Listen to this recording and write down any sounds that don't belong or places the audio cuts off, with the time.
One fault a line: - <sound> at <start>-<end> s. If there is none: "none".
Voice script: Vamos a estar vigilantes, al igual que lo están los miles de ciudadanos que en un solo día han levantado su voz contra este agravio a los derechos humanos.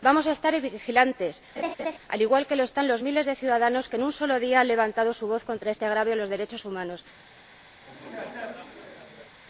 - laugh at 1.6-2.0 s
- laugh at 7.8-9.4 s